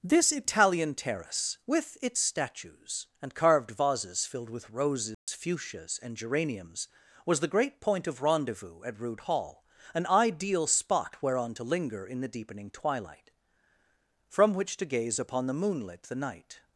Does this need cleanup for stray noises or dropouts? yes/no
yes